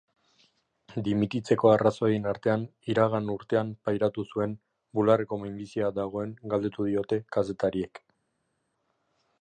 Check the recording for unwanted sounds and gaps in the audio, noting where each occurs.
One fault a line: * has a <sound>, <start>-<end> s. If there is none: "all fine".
all fine